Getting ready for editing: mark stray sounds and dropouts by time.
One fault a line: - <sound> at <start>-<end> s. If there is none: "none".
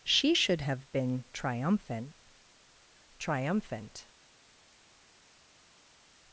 none